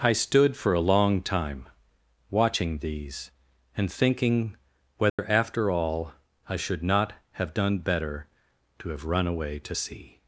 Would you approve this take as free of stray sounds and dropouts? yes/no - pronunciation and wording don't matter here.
no